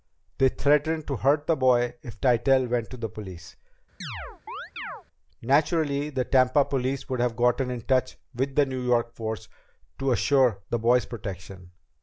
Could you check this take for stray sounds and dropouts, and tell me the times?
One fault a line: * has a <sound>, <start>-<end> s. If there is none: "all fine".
* has a chirp, 4.0-5.0 s